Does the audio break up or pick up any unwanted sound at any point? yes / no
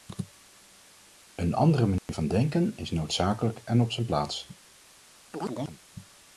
yes